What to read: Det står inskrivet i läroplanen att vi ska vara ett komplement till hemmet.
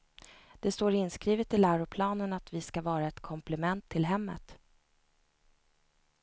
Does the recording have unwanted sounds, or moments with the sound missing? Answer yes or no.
no